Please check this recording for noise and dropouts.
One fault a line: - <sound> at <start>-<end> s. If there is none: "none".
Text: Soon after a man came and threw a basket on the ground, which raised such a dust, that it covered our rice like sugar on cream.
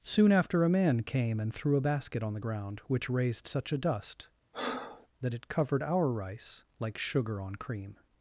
- breath at 4.5-5.1 s